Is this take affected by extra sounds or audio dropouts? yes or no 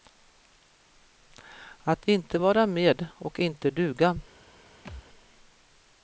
yes